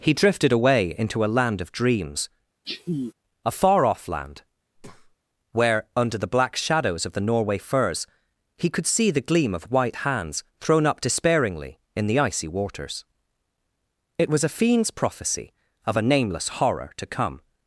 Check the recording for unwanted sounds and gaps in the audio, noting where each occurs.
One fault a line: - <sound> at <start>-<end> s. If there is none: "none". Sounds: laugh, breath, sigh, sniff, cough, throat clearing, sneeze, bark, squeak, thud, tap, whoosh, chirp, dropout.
- sneeze at 2.6-3.1 s
- breath at 4.8-5.2 s